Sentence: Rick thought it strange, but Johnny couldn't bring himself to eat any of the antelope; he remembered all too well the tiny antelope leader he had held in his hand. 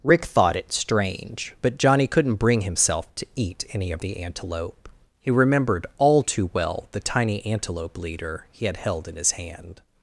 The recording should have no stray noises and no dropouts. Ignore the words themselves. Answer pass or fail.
pass